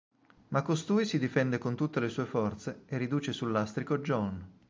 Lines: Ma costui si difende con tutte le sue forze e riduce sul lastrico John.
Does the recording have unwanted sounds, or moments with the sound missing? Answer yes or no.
no